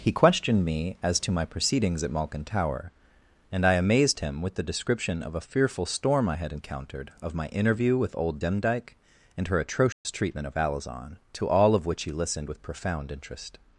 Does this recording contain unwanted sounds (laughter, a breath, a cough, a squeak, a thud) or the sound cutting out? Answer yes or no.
yes